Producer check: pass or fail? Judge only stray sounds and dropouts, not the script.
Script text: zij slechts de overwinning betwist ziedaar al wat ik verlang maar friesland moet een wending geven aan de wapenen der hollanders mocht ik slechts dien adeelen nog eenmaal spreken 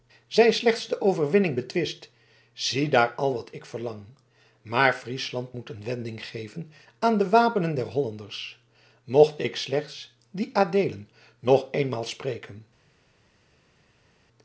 pass